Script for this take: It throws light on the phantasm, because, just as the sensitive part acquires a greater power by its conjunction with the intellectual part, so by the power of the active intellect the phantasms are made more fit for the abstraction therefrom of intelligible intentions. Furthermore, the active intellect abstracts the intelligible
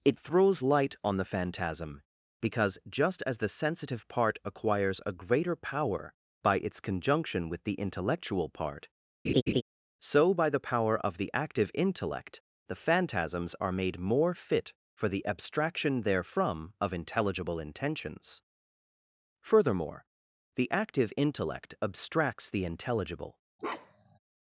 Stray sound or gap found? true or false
true